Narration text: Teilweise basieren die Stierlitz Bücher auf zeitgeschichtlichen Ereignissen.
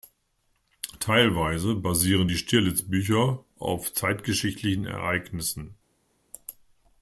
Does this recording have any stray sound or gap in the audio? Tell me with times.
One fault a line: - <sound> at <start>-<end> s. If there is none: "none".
none